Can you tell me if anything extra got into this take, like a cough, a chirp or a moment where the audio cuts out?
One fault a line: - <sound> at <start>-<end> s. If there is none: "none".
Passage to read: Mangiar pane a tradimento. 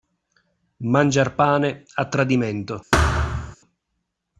- thud at 2.9-3.6 s